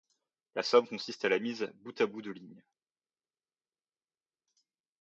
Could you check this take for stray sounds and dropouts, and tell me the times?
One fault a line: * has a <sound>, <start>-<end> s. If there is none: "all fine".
all fine